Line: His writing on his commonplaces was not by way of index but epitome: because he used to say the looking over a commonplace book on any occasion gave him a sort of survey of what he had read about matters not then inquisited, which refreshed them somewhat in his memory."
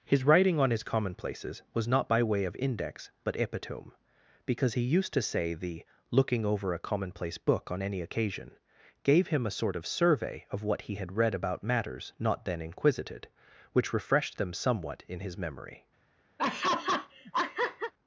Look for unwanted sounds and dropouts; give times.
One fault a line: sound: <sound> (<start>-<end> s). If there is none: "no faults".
sound: laugh (16.4-17.9 s)